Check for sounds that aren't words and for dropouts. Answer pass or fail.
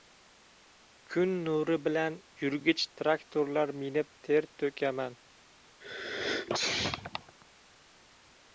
fail